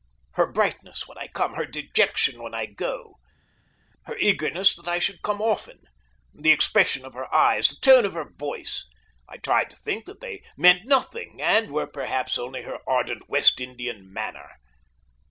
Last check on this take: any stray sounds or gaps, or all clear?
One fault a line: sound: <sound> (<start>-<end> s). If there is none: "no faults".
no faults